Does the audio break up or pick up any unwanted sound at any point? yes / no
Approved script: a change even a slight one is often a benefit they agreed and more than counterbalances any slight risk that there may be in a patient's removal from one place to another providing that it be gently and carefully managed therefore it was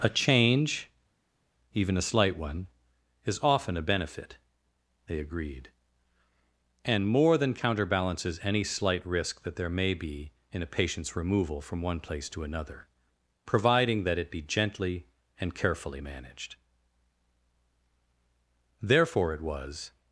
no